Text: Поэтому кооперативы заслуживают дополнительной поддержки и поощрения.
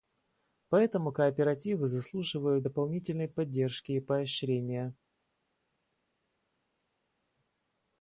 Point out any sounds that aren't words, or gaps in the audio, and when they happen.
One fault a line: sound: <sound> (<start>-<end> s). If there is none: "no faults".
no faults